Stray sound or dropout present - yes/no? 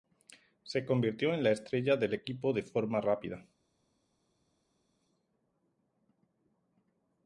no